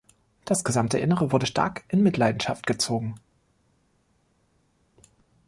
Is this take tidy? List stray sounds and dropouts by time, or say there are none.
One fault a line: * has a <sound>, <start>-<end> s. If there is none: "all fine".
all fine